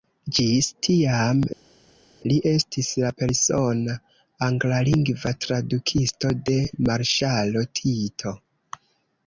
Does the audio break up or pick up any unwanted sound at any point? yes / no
no